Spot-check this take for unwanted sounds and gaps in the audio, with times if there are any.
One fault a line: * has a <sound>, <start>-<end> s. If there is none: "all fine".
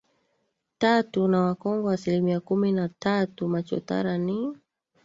all fine